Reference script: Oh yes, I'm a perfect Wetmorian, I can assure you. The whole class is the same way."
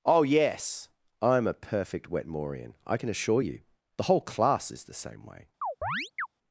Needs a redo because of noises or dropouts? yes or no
yes